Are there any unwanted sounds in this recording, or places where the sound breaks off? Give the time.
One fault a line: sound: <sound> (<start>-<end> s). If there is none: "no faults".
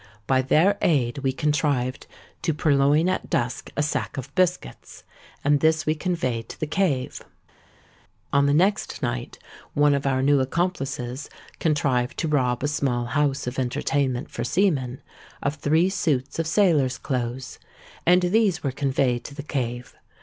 no faults